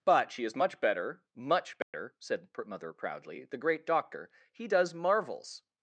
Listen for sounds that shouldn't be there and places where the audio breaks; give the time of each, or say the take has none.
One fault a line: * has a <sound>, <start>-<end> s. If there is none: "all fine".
* has a dropout, 1.8-1.9 s